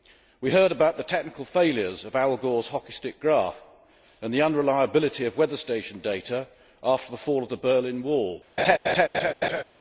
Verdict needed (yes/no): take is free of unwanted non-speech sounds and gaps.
no